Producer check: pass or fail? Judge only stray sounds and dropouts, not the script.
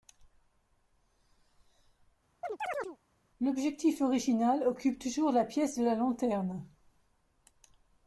fail